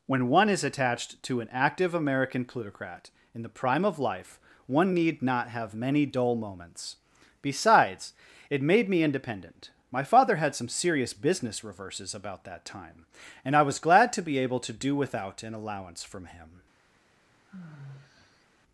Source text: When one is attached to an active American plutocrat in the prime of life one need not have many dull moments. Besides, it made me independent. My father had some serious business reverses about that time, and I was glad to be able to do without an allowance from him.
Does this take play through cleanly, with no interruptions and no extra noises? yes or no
no